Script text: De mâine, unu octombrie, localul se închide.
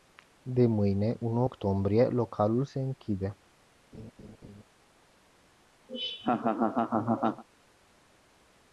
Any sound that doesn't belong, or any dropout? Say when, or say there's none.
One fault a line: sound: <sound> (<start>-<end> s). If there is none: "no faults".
sound: laugh (3.9-4.6 s)
sound: laugh (5.9-7.4 s)